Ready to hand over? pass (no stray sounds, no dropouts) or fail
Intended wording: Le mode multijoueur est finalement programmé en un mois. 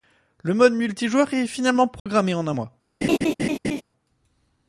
fail